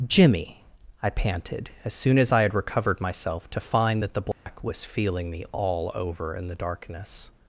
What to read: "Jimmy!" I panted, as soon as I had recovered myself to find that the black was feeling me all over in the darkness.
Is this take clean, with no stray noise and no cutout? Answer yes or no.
no